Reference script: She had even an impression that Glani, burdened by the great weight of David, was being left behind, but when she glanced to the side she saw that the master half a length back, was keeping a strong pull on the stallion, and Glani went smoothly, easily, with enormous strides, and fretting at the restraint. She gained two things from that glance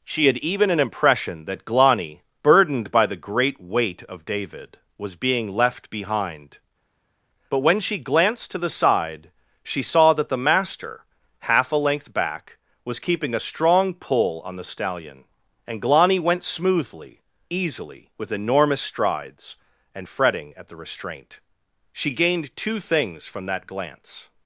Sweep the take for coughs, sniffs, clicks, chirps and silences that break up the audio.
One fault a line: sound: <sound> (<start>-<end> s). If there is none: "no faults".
no faults